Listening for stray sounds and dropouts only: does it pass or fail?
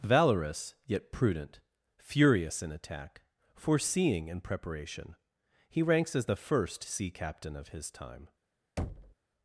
fail